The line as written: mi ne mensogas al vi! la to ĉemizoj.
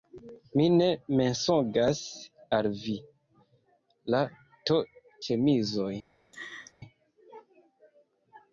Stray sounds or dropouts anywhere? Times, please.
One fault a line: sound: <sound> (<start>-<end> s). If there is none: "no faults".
sound: laugh (6.3-6.7 s)